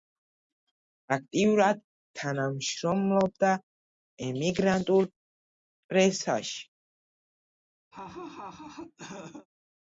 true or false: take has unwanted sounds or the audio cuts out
true